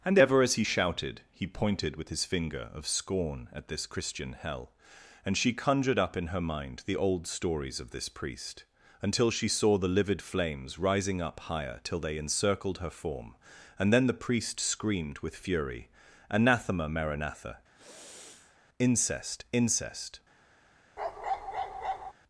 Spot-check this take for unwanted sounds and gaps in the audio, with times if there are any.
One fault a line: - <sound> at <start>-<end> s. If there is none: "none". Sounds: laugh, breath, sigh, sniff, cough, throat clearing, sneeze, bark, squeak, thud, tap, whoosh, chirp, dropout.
- sniff at 17.7-18.6 s
- bark at 21.0-22.1 s